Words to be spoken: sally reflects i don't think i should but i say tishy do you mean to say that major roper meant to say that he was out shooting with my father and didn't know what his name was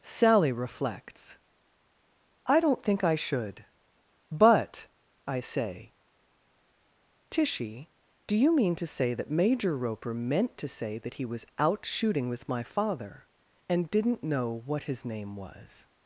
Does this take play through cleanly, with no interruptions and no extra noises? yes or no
yes